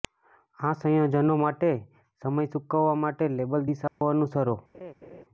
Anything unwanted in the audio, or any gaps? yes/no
yes